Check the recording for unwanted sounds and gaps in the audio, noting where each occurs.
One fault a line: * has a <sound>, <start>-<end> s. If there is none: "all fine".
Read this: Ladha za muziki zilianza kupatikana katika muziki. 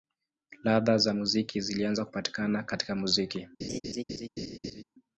* has a laugh, 3.6-4.8 s